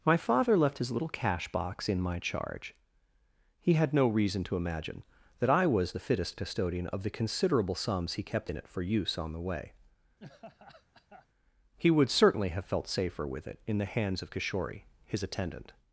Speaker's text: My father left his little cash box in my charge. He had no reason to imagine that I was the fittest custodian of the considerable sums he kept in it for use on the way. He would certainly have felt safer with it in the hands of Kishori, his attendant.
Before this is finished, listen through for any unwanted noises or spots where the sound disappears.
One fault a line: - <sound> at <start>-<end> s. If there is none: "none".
- laugh at 10.2-11.3 s